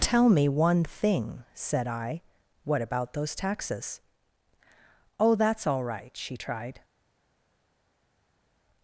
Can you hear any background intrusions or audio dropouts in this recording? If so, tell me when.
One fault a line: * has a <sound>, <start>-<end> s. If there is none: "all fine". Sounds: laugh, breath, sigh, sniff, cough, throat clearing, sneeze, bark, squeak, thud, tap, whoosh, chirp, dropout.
all fine